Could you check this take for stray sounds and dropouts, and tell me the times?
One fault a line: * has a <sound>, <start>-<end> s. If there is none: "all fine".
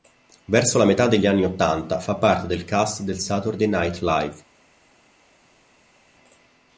all fine